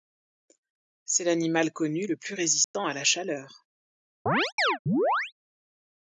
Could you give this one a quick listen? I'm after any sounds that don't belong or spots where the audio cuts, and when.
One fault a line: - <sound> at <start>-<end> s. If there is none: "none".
- dropout at 2.6-2.7 s
- chirp at 4.3-5.3 s